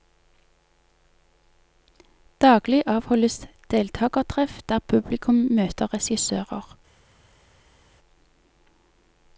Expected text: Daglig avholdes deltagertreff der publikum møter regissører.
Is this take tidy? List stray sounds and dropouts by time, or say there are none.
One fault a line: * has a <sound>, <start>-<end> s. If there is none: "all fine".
all fine